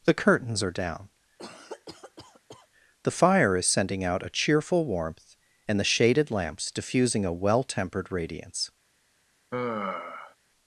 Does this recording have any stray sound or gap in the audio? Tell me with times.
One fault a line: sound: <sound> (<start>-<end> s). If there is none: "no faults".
sound: cough (1.4-2.7 s)
sound: sigh (9.5-10.4 s)